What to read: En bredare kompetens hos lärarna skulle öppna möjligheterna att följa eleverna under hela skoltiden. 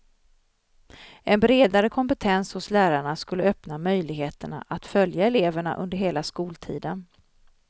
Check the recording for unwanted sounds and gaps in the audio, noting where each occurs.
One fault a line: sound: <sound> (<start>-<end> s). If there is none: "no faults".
no faults